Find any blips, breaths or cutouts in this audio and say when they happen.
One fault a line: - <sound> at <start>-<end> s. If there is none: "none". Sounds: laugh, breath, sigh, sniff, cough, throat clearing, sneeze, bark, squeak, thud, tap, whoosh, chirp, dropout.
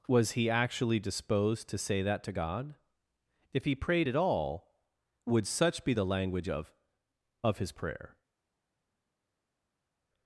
none